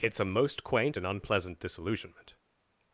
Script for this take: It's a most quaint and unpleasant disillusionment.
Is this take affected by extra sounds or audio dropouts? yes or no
no